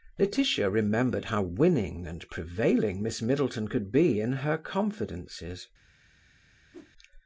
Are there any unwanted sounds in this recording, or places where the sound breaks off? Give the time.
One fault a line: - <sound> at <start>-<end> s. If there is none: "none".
- whoosh at 6.7-6.9 s